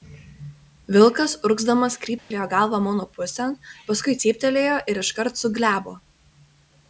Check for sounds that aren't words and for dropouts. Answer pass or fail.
fail